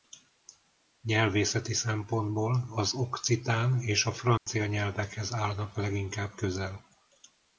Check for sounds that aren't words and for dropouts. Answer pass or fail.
fail